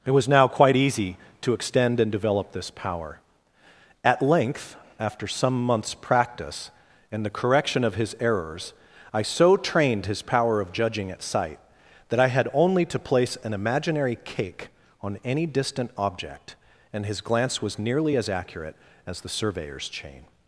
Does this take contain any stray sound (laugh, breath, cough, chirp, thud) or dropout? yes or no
no